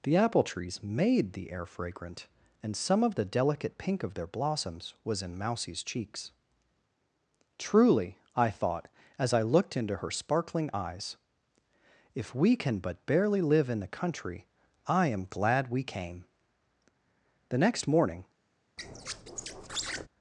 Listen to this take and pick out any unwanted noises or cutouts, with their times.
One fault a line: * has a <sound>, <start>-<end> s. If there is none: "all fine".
* has a squeak, 18.8-20.1 s